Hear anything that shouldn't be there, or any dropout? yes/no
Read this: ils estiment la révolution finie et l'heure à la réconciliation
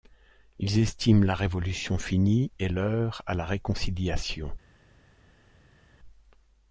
no